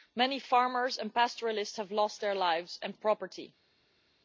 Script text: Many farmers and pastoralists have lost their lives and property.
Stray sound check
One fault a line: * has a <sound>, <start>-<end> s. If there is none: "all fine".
all fine